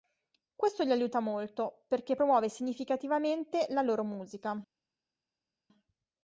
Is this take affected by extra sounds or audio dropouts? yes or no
no